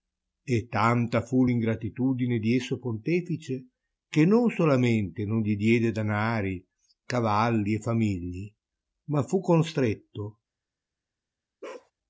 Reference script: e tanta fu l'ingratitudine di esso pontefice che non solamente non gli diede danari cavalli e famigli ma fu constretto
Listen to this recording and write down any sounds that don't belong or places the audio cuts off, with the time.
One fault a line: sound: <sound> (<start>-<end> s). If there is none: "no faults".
sound: bark (11.6-11.9 s)